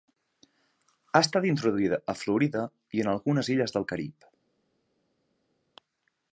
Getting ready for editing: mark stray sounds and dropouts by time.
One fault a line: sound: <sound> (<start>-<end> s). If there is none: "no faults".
no faults